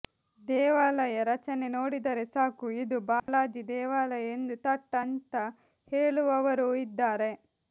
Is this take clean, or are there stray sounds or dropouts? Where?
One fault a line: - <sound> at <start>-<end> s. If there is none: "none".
- dropout at 3.2-3.3 s